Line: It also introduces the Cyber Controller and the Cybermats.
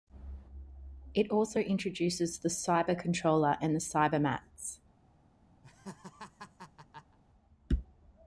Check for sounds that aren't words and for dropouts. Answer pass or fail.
fail